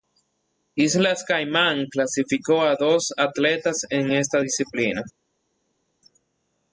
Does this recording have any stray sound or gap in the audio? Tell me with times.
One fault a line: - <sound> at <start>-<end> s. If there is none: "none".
none